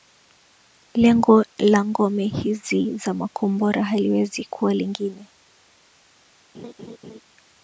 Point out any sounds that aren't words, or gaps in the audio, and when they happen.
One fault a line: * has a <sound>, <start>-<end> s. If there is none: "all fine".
* has a laugh, 6.5-7.2 s